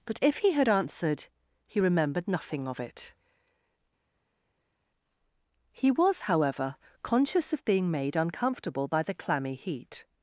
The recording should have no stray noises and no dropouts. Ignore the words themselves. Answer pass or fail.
pass